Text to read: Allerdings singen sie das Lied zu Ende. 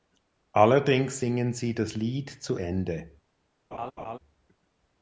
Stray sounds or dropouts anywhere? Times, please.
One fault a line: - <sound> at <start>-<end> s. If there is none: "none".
- laugh at 3.7-4.2 s